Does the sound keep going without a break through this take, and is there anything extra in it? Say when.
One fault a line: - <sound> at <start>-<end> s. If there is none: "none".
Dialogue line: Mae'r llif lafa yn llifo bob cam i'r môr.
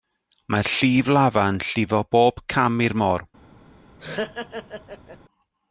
- laugh at 4.0-5.2 s